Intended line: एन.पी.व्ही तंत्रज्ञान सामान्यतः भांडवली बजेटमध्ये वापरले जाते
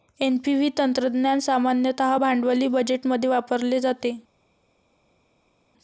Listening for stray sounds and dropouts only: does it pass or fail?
pass